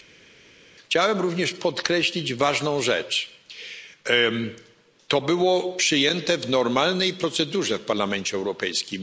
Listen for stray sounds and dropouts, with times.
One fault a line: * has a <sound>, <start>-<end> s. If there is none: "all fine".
all fine